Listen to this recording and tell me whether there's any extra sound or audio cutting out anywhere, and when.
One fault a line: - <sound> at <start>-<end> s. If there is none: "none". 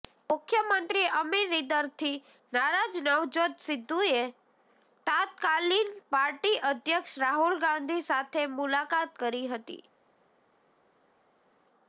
none